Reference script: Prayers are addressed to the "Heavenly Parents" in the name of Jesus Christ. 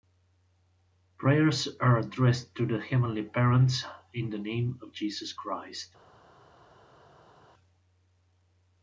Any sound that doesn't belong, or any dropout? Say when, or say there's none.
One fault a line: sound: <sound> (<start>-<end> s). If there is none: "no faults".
no faults